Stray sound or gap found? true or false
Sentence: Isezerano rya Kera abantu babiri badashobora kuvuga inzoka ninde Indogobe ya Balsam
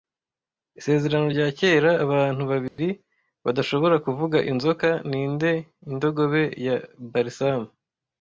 true